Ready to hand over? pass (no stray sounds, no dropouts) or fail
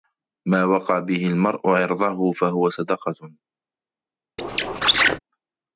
fail